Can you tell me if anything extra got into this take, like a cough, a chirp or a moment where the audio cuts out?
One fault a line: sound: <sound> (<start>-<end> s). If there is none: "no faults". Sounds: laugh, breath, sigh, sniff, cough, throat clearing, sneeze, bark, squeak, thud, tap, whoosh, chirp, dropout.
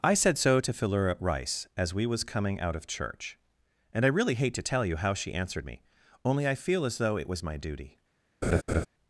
sound: laugh (8.4-8.9 s)